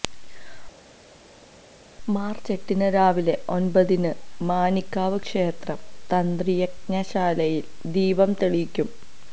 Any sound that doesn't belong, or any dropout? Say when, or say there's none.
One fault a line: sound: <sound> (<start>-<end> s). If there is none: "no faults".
no faults